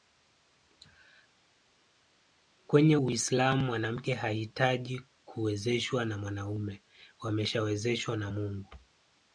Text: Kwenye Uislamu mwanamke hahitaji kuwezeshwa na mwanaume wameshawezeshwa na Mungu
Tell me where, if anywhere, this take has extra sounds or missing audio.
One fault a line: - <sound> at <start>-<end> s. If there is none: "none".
none